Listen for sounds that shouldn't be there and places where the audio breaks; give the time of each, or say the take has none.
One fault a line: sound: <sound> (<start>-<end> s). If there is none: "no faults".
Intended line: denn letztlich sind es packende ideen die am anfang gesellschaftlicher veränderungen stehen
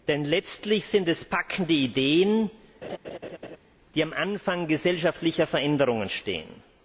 sound: laugh (2.8-3.6 s)